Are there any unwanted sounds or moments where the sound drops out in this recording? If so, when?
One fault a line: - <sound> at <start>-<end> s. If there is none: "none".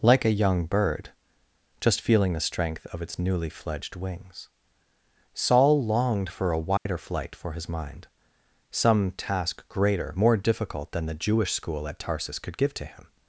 - dropout at 6.8-6.9 s